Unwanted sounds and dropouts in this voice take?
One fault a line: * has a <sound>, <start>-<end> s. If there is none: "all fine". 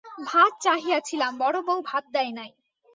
all fine